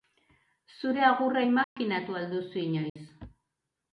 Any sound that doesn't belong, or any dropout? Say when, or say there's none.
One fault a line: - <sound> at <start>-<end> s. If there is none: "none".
- dropout at 1.6-1.8 s
- dropout at 2.9-3.0 s